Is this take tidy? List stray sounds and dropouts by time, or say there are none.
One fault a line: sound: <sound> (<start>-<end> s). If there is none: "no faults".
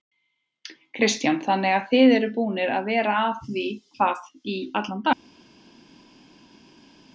no faults